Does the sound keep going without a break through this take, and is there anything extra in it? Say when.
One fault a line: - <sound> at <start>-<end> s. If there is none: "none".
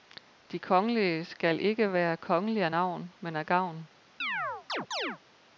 - chirp at 4.2-5.2 s